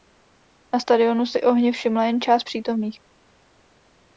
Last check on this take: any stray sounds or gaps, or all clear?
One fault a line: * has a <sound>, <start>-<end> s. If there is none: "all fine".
all fine